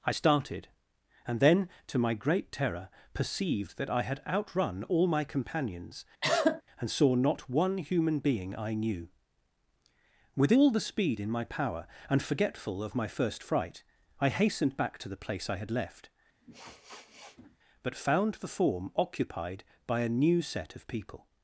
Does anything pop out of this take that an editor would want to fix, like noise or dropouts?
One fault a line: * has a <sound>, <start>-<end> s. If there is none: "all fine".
* has a cough, 6.2-6.6 s
* has a sniff, 16.4-17.6 s